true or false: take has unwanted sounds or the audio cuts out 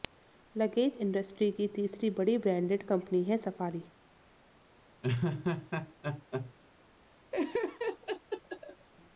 true